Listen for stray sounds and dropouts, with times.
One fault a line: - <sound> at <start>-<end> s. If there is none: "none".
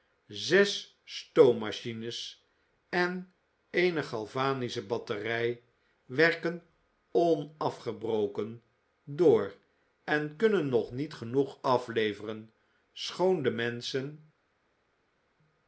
none